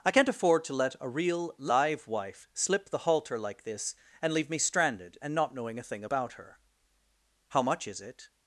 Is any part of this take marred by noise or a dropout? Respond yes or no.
no